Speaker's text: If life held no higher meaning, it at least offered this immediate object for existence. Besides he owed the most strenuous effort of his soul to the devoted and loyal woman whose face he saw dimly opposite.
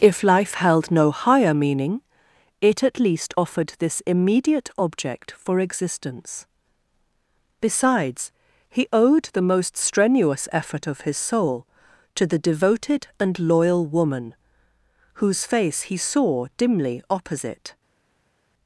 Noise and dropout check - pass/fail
pass